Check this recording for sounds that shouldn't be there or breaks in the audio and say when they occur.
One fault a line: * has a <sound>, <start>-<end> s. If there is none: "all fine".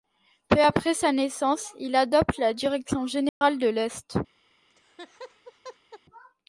* has a dropout, 3.3-3.4 s
* has a laugh, 4.7-6.0 s